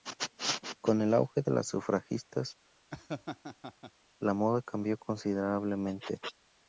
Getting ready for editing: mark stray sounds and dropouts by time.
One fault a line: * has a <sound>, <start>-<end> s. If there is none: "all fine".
* has a laugh, 2.9-3.9 s